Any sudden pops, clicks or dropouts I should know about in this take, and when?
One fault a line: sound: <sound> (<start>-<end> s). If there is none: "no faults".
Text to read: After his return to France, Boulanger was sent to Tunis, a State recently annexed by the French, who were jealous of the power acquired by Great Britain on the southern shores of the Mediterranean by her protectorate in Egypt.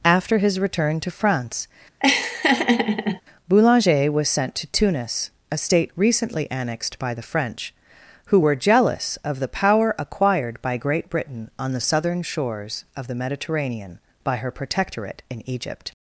sound: laugh (2.0-3.2 s)